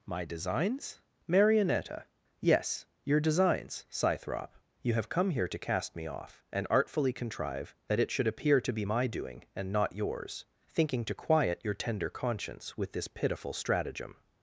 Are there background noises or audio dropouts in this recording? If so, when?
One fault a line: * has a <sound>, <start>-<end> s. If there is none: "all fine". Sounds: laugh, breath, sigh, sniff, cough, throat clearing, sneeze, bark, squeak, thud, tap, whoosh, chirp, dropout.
all fine